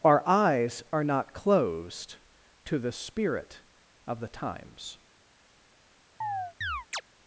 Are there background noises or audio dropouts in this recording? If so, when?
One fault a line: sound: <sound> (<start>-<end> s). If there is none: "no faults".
sound: chirp (6.2-7.0 s)